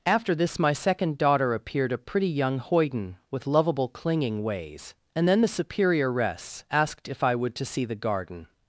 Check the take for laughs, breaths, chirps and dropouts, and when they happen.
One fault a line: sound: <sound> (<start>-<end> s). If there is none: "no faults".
no faults